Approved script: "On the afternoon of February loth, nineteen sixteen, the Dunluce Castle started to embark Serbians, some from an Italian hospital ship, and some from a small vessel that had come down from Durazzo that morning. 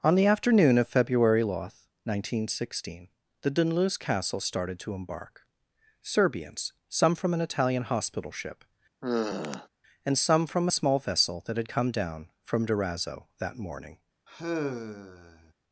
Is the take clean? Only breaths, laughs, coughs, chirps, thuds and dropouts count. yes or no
no